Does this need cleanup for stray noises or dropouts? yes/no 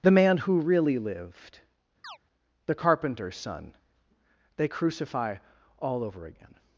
yes